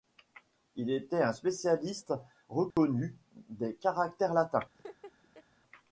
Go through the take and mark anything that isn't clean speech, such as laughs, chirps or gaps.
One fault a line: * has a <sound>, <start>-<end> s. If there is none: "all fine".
* has a dropout, 2.7-2.8 s
* has a laugh, 4.7-5.4 s